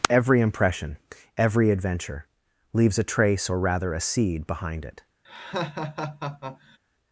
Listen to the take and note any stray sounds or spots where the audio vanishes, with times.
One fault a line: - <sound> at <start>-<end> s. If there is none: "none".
- laugh at 5.2-6.8 s